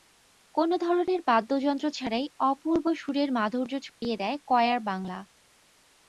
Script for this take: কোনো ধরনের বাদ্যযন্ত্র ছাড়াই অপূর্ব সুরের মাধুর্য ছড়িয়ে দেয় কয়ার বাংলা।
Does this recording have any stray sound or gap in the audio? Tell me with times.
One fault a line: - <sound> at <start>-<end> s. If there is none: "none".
- dropout at 3.9-4.0 s